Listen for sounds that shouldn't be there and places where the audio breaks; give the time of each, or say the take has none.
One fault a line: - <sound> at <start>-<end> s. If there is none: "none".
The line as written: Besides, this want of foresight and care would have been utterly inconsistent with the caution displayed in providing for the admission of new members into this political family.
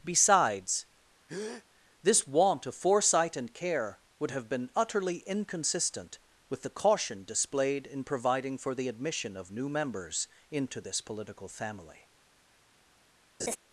- breath at 1.3-1.7 s
- laugh at 13.4-13.6 s